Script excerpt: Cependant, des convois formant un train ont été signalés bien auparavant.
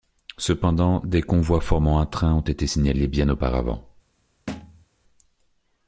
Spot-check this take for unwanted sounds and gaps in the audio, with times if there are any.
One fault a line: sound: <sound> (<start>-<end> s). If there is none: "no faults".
sound: thud (4.5-4.8 s)